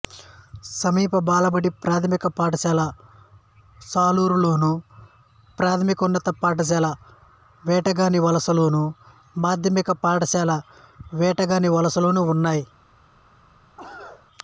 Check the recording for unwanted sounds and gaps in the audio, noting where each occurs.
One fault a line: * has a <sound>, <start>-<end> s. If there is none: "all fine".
* has a cough, 13.8-14.3 s